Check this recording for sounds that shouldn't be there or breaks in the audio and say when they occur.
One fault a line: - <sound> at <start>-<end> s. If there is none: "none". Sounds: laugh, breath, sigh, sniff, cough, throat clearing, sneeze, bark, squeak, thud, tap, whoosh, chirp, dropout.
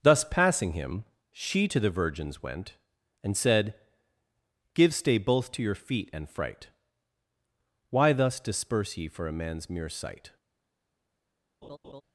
- laugh at 11.6-12.0 s